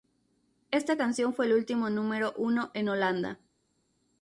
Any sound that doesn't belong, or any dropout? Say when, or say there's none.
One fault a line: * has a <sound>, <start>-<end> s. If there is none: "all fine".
all fine